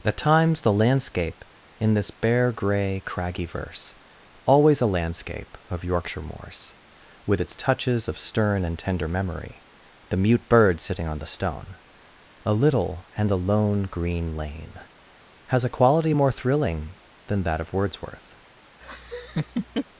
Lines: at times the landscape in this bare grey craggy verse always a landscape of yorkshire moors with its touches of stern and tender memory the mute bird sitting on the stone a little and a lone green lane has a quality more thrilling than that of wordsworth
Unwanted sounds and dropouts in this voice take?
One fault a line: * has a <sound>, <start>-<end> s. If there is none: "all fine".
* has a laugh, 18.8-19.9 s